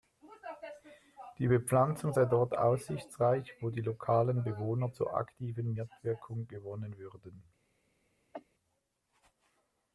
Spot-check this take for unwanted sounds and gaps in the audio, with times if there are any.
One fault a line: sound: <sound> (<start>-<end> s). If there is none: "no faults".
sound: cough (8.3-8.5 s)